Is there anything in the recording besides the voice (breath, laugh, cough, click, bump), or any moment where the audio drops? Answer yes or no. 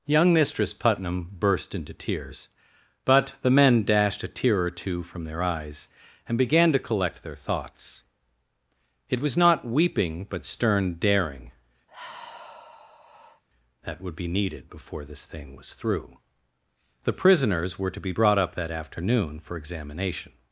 yes